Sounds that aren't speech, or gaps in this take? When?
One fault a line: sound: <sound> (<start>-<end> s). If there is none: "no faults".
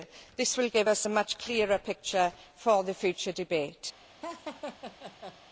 sound: laugh (4.2-5.4 s)